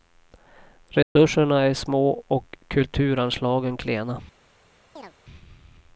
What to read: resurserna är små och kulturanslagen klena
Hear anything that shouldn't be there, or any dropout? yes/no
yes